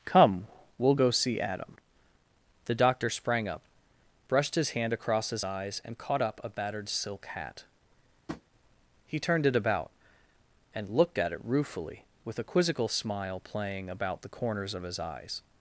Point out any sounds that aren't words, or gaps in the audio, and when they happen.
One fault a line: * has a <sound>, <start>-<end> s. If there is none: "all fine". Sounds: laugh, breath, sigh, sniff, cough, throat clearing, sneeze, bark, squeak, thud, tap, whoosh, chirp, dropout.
* has a tap, 8.3-8.4 s